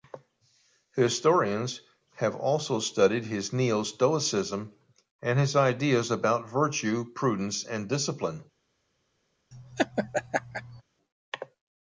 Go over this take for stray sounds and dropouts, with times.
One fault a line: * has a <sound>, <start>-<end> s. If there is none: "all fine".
* has a laugh, 9.5-10.8 s